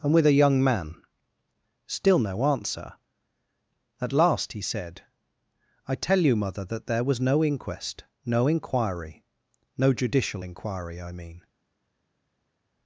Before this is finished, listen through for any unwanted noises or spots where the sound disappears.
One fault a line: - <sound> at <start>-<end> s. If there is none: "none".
none